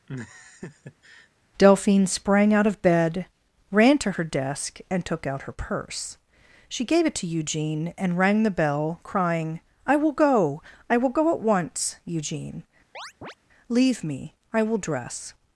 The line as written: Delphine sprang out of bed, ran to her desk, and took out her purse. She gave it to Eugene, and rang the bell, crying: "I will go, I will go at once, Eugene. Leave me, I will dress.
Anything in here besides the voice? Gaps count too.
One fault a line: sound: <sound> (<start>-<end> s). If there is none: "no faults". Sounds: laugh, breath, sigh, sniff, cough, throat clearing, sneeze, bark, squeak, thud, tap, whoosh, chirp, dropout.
sound: laugh (0.1-1.3 s)
sound: chirp (12.9-13.3 s)